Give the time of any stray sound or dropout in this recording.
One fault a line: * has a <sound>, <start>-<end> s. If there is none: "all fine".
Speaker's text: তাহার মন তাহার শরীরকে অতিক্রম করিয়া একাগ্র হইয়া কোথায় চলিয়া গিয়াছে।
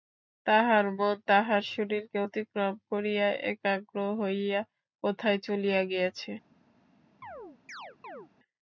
* has a chirp, 7.2-8.3 s